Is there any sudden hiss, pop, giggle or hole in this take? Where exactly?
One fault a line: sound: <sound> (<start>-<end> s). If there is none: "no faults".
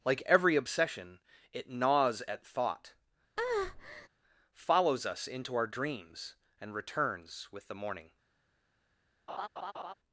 sound: breath (3.4-4.1 s)
sound: laugh (9.3-9.9 s)